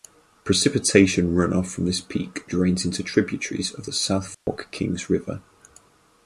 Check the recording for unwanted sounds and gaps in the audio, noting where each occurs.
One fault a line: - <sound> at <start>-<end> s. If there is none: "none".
- dropout at 4.3-4.5 s